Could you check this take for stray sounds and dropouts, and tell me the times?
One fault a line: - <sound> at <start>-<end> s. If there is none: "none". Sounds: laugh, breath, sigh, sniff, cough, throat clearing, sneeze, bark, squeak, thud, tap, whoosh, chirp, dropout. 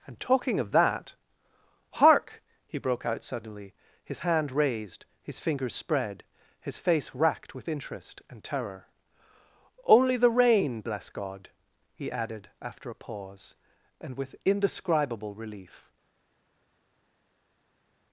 none